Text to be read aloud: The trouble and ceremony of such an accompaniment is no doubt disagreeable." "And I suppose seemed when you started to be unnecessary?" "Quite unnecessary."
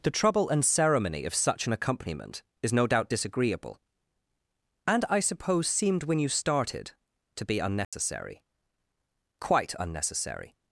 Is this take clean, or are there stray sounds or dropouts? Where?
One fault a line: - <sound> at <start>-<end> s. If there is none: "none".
- dropout at 7.8-7.9 s